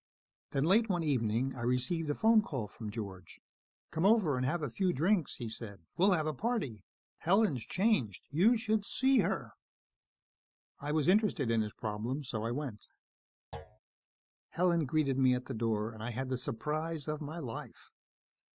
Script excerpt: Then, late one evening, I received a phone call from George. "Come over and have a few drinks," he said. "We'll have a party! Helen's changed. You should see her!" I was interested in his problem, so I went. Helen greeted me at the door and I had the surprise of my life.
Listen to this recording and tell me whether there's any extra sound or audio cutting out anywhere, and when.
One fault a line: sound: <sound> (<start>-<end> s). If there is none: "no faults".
sound: thud (13.5-13.8 s)